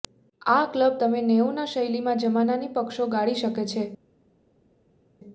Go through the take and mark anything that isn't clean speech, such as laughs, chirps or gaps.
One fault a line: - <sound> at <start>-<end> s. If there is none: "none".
none